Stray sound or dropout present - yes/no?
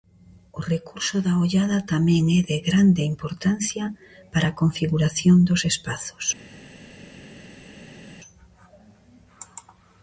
no